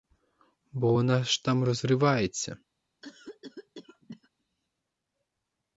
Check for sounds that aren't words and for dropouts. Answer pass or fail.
fail